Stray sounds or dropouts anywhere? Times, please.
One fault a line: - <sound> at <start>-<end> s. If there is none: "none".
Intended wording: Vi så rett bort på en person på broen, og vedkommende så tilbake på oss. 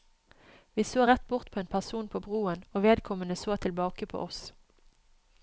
none